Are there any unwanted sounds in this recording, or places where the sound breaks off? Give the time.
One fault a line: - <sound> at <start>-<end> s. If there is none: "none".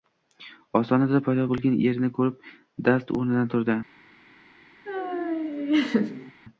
- laugh at 4.9-6.3 s